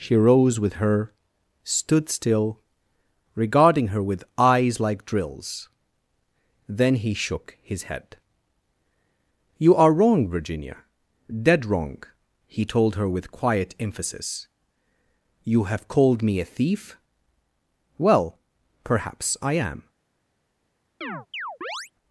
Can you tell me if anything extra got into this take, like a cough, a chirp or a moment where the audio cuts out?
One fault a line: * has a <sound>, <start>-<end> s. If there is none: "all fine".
* has a chirp, 21.0-21.9 s